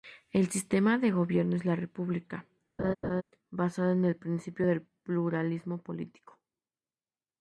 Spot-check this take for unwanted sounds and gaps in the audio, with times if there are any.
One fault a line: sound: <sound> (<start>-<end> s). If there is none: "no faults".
sound: laugh (2.8-3.2 s)